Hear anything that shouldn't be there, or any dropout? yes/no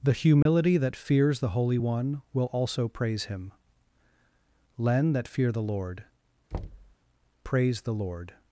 yes